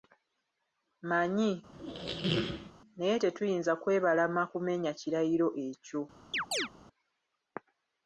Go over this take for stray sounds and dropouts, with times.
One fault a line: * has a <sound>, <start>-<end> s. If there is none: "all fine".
* has a squeak, 1.7-2.7 s
* has a chirp, 6.3-6.7 s